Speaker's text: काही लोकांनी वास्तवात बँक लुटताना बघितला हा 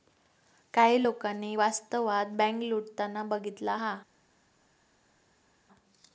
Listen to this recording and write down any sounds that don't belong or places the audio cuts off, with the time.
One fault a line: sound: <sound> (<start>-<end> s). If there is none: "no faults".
no faults